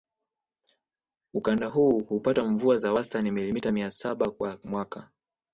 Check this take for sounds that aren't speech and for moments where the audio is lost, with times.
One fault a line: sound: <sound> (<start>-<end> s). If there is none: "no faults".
no faults